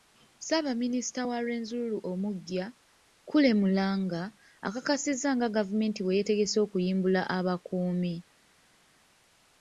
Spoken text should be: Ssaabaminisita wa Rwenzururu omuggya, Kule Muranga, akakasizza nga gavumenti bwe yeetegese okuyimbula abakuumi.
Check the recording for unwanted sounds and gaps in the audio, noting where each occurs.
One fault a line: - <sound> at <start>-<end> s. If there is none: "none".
none